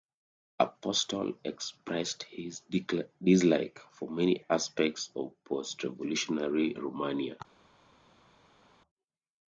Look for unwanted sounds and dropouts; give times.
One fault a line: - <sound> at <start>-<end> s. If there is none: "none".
none